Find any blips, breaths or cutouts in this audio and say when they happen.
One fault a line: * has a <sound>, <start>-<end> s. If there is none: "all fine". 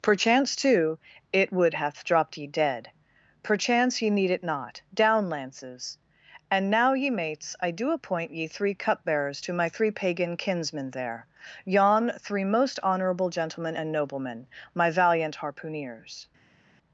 all fine